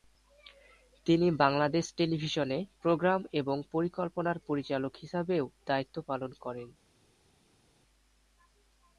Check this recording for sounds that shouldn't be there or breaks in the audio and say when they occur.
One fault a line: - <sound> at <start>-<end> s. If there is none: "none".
none